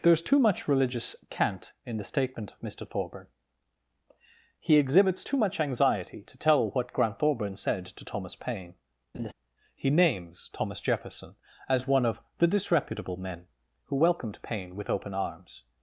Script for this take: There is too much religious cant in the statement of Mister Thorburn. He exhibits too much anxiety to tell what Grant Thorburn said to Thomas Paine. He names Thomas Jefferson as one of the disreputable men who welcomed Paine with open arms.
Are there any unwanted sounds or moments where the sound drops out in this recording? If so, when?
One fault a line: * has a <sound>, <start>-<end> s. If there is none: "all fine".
* has a laugh, 9.1-9.3 s